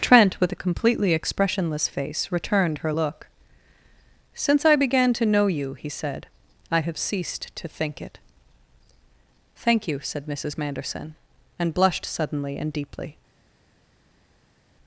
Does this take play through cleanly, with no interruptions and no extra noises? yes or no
yes